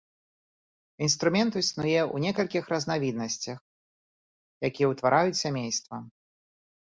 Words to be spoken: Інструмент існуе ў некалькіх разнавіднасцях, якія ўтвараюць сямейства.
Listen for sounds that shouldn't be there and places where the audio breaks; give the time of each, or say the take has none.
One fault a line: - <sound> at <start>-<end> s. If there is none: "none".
none